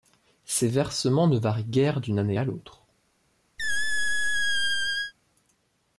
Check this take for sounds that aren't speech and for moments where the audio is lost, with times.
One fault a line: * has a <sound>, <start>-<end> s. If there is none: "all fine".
* has a squeak, 3.6-5.1 s